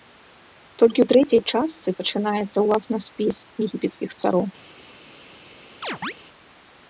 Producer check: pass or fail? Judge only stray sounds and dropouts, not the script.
fail